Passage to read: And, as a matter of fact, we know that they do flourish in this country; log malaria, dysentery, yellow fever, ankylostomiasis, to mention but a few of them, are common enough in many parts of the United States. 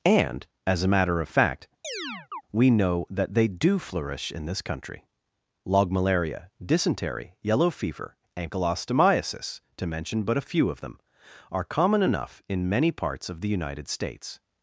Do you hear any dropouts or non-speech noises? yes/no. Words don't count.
yes